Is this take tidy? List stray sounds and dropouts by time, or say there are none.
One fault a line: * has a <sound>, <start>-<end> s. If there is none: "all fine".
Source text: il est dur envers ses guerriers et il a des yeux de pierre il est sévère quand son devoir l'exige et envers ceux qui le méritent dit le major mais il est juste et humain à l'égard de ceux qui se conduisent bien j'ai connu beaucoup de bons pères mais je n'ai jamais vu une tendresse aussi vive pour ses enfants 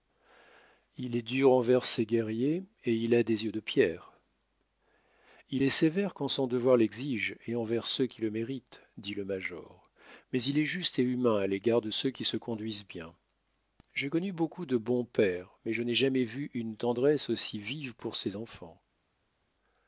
all fine